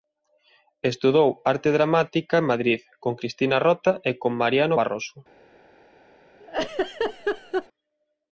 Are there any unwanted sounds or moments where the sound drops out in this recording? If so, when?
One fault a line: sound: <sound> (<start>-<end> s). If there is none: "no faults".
sound: laugh (6.4-7.7 s)